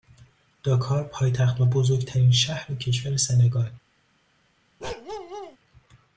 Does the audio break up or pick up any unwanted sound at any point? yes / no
yes